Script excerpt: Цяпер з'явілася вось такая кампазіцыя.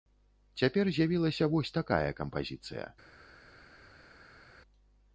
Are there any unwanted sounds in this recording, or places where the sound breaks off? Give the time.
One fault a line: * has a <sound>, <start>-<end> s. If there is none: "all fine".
all fine